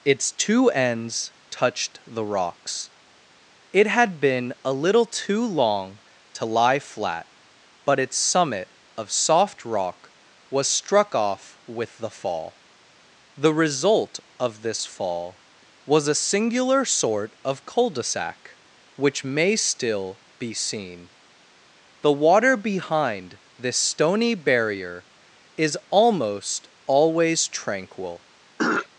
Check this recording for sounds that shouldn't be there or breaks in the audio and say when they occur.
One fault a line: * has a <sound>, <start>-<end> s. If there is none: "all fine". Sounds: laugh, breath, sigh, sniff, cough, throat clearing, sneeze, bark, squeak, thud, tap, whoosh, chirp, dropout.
* has a throat clearing, 28.6-28.9 s